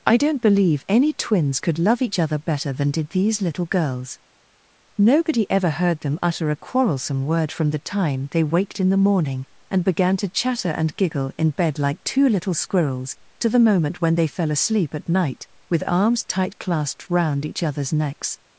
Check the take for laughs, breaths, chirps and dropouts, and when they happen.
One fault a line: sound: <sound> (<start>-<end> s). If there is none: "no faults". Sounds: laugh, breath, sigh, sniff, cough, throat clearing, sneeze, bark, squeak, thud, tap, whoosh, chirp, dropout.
no faults